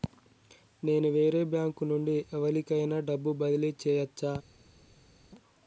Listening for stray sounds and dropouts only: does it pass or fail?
pass